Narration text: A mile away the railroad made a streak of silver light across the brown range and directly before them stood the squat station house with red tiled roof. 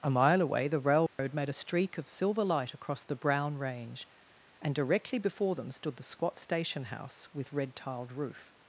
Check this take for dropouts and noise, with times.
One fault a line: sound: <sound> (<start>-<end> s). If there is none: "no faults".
sound: dropout (1.1-1.2 s)